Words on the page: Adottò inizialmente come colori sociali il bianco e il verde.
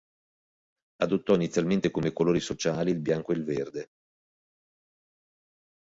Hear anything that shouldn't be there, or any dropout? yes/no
no